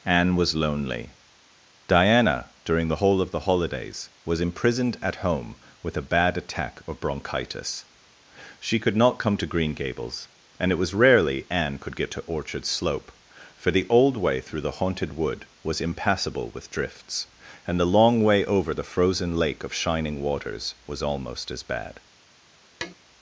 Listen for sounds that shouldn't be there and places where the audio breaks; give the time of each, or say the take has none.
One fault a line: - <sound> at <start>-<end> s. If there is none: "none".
- tap at 22.8-22.9 s